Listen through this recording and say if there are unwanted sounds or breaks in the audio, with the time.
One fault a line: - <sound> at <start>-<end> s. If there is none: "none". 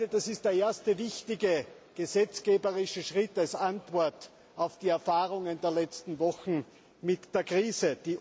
none